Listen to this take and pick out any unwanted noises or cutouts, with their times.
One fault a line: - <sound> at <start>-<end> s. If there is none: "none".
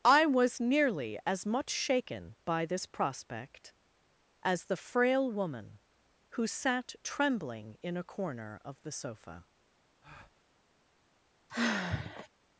- breath at 10.0-10.4 s
- sigh at 11.5-12.3 s